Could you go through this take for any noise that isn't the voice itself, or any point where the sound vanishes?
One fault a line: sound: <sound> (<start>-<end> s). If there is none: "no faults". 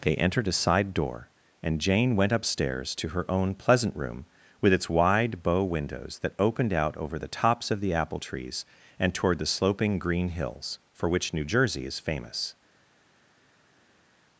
no faults